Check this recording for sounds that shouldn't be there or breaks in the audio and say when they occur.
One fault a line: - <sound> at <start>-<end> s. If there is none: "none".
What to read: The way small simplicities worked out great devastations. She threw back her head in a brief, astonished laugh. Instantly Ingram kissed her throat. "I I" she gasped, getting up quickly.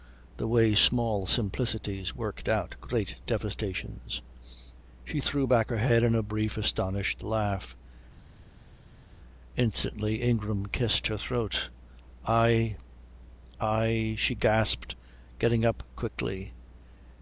none